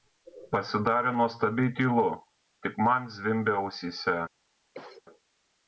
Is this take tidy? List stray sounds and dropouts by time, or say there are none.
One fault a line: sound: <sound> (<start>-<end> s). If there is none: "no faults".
sound: cough (4.7-5.0 s)